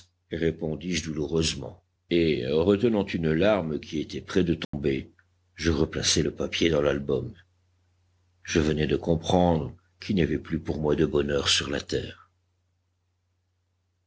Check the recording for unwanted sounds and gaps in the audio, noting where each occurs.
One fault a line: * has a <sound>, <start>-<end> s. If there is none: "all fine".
* has a dropout, 4.6-4.7 s